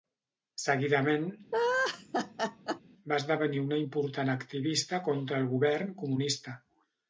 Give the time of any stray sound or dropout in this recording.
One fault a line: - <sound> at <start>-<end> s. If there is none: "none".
- laugh at 1.5-2.8 s